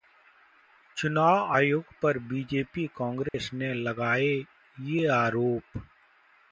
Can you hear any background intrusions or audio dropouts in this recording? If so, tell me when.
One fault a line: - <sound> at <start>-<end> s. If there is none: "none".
- dropout at 3.3-3.3 s